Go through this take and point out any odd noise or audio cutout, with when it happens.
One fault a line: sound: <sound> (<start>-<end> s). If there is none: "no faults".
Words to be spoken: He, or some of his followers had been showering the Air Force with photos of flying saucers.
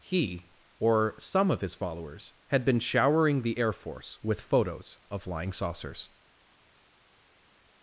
no faults